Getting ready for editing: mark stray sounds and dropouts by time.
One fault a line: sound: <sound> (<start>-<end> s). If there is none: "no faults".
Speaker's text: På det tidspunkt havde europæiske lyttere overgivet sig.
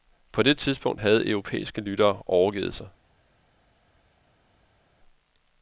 no faults